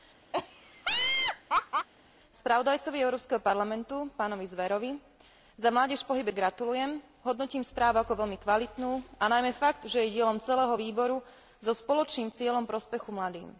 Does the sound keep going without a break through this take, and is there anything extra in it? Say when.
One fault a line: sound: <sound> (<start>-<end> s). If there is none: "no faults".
sound: laugh (0.3-1.9 s)